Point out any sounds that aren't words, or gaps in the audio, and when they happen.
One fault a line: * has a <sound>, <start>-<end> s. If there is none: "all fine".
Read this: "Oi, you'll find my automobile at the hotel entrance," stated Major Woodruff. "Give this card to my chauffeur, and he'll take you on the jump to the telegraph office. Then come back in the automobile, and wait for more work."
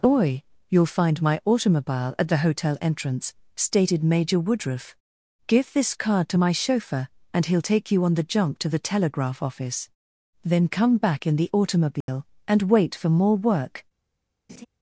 * has a dropout, 12.0-12.1 s
* has a laugh, 14.5-14.7 s